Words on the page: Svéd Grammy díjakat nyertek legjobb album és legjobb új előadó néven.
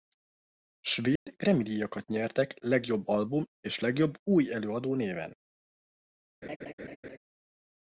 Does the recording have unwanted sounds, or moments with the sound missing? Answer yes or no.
yes